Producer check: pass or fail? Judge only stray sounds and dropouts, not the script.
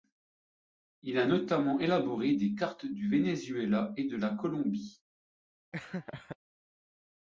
fail